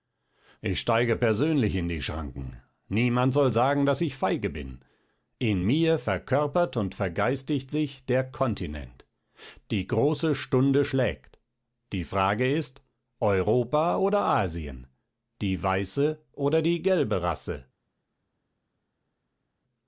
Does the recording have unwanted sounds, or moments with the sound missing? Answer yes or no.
no